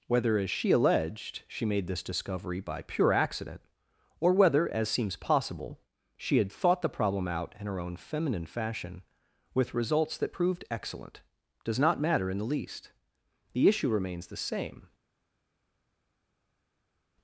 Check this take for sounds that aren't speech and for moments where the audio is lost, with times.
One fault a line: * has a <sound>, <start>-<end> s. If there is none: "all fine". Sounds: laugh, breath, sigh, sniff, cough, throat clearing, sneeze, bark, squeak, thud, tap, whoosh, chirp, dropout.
all fine